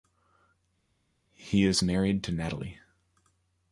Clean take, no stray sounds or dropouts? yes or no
yes